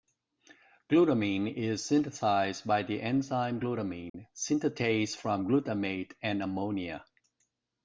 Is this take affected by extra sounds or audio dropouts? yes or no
yes